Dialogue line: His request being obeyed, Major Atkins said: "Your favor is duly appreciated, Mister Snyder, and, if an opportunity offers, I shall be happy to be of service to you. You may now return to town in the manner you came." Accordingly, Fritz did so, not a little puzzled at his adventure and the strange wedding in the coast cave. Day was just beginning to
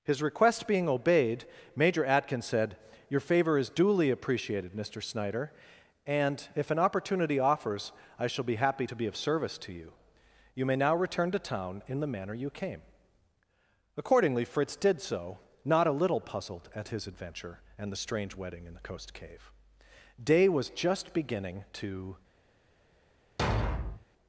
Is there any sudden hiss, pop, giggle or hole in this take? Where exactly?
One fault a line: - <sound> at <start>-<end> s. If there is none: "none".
- thud at 23.4-24.1 s